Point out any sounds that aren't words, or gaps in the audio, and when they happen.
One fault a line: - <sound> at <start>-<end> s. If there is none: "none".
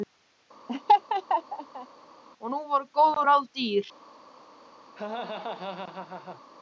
- laugh at 0.7-1.9 s
- laugh at 4.9-6.4 s